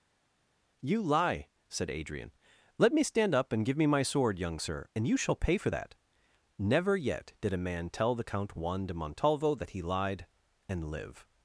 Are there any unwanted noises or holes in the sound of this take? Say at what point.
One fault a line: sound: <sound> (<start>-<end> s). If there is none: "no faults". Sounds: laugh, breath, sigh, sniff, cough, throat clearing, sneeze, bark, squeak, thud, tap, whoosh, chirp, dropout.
no faults